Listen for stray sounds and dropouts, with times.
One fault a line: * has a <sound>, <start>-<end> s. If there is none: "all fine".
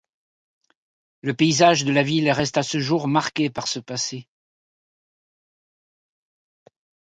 all fine